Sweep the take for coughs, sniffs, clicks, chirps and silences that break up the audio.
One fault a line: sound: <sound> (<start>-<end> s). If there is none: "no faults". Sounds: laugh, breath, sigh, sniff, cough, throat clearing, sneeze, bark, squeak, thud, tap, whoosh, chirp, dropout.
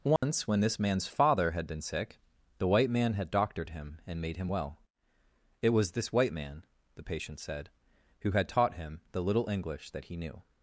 sound: dropout (0.2-0.2 s)